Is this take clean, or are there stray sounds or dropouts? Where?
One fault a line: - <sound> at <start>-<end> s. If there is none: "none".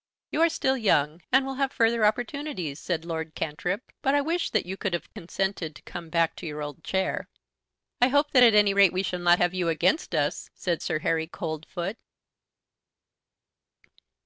none